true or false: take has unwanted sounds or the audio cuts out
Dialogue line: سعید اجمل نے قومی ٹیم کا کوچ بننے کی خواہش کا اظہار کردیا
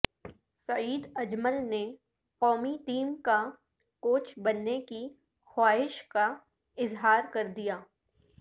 false